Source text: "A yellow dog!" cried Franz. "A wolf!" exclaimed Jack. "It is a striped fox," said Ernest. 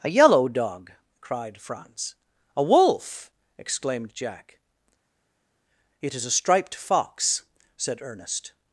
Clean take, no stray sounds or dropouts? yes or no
yes